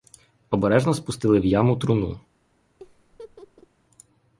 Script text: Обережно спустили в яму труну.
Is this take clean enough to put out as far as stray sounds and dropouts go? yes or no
no